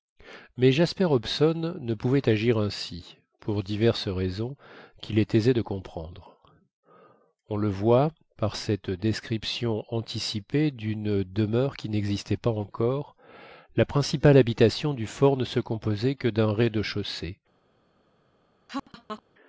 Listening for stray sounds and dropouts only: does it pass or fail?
fail